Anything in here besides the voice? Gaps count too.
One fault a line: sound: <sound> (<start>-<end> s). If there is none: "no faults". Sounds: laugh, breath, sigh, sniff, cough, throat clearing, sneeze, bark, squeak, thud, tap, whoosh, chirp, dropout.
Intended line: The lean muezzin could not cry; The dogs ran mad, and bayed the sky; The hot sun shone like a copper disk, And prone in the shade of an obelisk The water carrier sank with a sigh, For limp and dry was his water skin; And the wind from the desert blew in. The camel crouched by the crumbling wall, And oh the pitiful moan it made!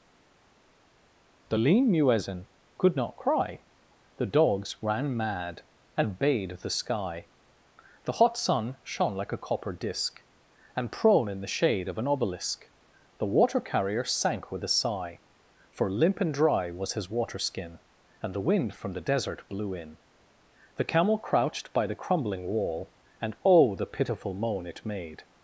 no faults